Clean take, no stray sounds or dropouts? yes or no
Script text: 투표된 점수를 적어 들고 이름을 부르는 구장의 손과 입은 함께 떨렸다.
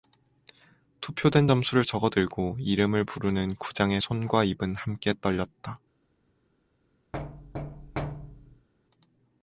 no